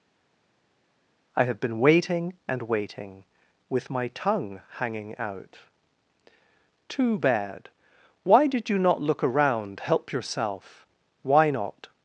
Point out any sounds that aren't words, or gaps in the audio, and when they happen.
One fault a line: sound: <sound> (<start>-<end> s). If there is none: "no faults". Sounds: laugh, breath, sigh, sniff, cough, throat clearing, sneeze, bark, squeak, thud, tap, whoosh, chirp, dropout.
no faults